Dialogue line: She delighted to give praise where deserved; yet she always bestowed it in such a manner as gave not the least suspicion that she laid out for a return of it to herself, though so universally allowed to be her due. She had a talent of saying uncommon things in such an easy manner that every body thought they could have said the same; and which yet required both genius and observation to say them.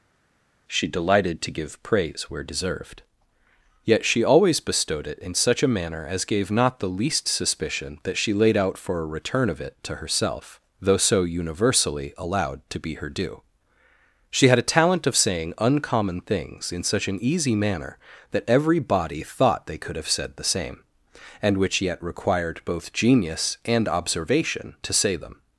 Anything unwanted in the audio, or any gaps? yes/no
no